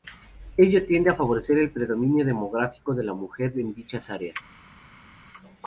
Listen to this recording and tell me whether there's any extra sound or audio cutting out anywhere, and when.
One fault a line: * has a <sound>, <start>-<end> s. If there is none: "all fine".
all fine